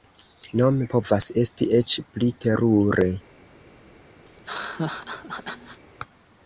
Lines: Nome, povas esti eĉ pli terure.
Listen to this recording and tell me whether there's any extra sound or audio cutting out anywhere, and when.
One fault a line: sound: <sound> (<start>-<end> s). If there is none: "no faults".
sound: laugh (4.3-5.8 s)